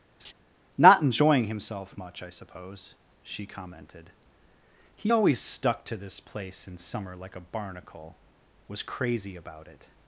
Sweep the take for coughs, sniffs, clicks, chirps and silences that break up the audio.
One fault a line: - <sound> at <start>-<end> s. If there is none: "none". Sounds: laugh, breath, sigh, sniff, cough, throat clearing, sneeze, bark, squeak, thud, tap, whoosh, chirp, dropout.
- laugh at 0.2-0.3 s